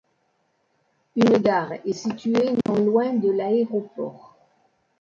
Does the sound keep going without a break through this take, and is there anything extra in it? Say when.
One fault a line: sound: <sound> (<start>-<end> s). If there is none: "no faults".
sound: dropout (2.6-2.7 s)